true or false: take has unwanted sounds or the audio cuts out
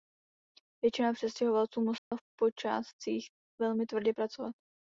true